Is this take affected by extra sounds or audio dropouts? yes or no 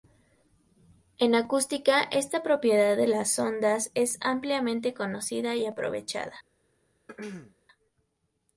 yes